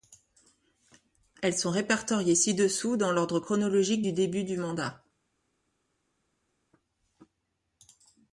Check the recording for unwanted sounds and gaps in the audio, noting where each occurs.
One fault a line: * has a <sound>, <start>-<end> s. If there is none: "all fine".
all fine